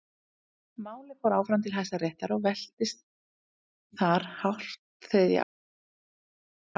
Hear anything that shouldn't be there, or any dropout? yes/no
no